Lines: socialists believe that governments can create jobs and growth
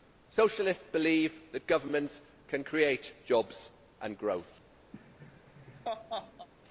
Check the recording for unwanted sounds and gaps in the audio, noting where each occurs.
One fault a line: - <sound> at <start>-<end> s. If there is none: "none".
- laugh at 4.9-6.5 s